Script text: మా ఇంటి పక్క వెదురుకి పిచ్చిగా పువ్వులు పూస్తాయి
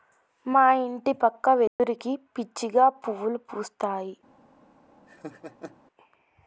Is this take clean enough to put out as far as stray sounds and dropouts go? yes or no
no